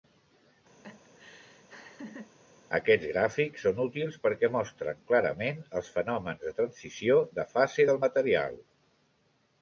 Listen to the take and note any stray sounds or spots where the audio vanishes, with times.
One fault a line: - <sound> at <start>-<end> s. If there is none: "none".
- laugh at 0.8-2.3 s